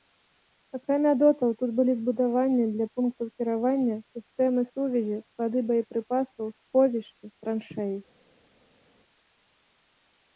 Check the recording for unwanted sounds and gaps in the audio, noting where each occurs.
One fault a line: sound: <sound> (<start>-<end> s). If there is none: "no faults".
no faults